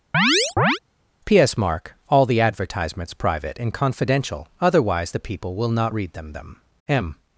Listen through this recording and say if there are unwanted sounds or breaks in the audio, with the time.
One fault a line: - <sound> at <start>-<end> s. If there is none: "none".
- chirp at 0.1-0.8 s